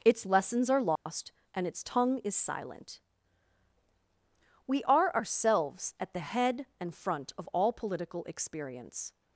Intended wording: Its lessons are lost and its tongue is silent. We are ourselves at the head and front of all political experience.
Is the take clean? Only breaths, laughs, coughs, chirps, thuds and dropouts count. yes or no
no